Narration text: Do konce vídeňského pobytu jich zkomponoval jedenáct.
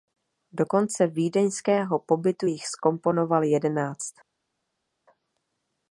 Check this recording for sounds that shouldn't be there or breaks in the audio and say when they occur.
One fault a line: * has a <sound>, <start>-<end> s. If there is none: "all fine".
all fine